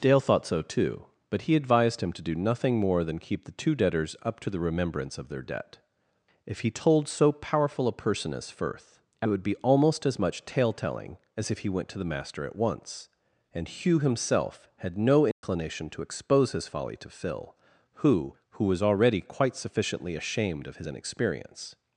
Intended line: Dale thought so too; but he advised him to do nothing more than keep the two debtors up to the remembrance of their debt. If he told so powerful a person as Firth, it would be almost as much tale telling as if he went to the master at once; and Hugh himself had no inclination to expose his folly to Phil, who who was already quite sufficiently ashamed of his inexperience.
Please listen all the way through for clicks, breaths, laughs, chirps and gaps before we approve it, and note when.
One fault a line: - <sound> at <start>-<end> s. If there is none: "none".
- dropout at 15.3-15.4 s